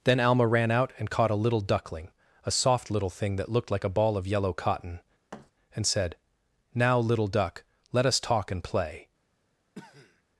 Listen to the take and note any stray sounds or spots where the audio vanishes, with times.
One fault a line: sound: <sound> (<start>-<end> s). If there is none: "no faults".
sound: thud (5.3-5.5 s)
sound: cough (9.7-10.2 s)